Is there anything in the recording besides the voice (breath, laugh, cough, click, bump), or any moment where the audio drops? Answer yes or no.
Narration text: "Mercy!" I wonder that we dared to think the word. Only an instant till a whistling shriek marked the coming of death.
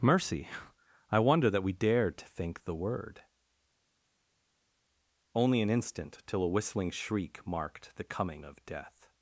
no